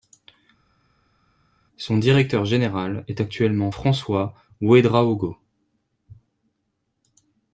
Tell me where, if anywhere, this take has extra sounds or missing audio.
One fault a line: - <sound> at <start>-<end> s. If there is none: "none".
none